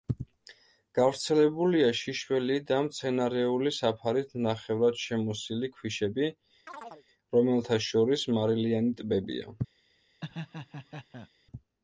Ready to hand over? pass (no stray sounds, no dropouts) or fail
fail